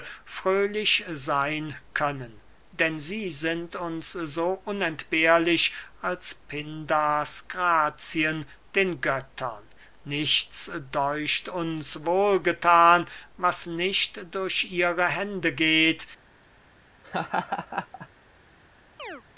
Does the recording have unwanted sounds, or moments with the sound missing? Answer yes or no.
yes